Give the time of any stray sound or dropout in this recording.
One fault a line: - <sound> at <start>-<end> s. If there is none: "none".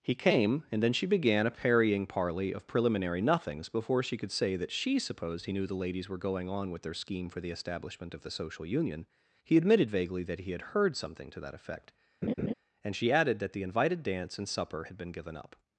- laugh at 12.2-12.5 s